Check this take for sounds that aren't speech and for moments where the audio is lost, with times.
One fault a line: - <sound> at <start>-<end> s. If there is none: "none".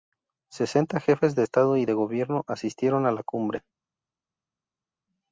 none